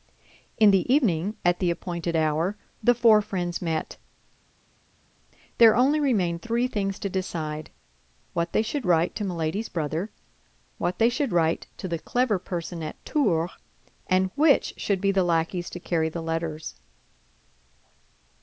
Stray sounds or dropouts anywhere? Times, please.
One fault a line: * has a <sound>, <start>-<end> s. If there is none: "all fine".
all fine